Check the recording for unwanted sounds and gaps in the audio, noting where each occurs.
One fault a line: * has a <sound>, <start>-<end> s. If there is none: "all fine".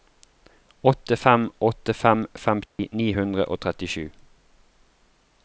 * has a dropout, 2.7-2.8 s